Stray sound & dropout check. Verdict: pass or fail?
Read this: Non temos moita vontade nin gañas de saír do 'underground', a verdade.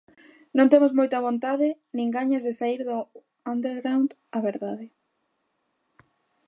pass